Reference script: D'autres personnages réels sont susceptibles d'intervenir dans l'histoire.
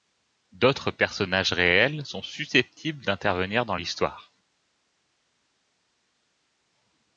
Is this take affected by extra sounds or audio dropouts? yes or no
no